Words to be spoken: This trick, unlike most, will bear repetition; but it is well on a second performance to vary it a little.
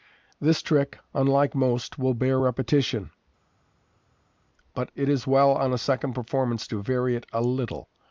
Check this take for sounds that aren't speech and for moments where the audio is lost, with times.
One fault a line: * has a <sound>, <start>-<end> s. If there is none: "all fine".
all fine